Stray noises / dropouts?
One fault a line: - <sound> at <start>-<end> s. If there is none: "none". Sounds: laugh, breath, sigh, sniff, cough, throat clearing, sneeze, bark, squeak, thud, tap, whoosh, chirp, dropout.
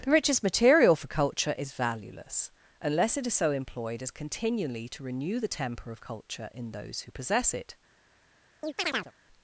- chirp at 8.6-9.1 s